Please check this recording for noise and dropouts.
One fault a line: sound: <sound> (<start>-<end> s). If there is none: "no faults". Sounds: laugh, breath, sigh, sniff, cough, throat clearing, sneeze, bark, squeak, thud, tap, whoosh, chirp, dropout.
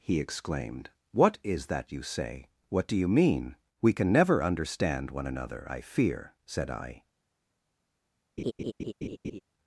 sound: laugh (8.4-9.4 s)